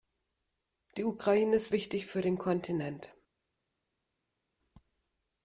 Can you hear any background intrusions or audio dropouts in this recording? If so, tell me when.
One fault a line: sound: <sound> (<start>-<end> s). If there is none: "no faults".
no faults